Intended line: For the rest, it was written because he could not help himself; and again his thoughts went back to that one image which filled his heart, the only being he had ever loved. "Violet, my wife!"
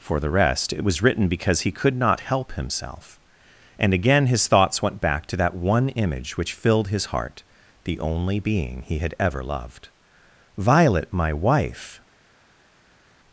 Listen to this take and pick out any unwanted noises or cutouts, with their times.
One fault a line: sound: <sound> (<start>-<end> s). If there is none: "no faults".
no faults